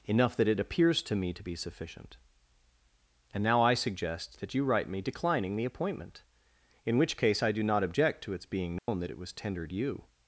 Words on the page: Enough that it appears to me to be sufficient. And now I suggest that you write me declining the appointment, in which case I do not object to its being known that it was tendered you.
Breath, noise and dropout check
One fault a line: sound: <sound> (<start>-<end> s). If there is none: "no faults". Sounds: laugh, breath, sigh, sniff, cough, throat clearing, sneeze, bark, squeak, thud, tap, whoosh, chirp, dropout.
sound: dropout (8.8-8.9 s)